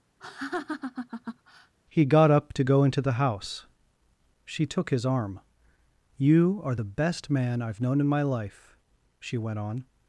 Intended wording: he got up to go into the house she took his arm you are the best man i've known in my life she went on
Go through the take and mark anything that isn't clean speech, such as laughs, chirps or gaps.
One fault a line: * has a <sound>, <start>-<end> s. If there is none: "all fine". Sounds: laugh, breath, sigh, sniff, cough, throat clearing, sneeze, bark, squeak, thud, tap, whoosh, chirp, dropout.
* has a laugh, 0.2-1.7 s